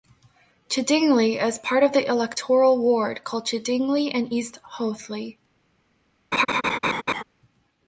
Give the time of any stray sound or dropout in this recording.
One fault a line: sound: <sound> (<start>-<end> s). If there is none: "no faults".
sound: laugh (6.3-7.2 s)